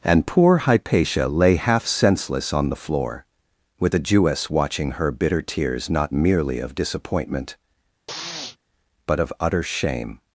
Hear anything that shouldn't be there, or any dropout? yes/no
yes